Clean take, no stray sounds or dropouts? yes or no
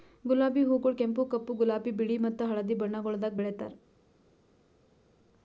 yes